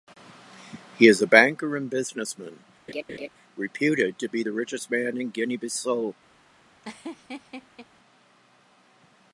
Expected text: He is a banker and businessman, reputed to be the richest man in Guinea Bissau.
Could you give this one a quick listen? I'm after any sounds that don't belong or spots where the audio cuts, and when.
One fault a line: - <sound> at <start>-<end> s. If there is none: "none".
- laugh at 2.9-3.3 s
- laugh at 6.8-7.9 s